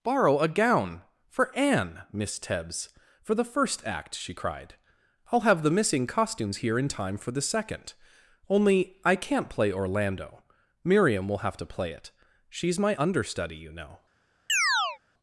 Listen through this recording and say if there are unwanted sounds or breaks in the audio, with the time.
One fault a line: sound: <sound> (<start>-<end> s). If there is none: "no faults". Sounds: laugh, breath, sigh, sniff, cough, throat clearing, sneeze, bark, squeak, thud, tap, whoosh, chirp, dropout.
sound: chirp (14.5-15.0 s)